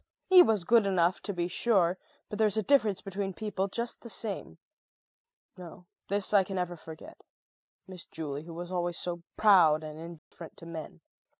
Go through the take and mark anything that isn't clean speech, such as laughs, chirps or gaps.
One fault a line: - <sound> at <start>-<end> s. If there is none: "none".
- dropout at 10.2-10.3 s